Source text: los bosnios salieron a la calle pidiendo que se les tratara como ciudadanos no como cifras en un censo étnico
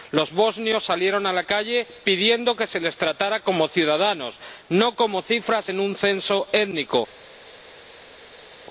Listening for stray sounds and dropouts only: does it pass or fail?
pass